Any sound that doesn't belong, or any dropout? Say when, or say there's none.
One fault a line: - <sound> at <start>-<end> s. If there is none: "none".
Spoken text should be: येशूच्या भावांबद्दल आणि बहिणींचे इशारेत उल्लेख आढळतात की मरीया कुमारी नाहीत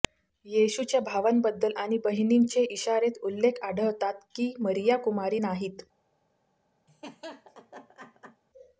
- laugh at 6.9-8.4 s